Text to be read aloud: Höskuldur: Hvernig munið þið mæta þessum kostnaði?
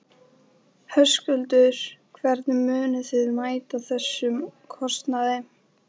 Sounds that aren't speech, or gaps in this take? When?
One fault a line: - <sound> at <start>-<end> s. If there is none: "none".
none